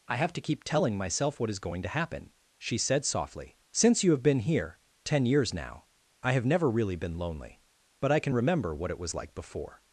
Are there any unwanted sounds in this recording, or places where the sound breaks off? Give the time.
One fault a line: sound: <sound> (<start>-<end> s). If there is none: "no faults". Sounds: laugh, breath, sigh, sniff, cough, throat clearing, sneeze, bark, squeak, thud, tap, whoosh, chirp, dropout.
no faults